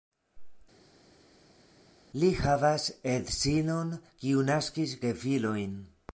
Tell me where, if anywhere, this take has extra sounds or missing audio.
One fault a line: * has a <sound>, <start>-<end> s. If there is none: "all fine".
all fine